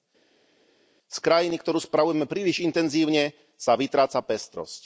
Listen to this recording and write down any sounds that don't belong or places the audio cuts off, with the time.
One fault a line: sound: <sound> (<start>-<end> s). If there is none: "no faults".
no faults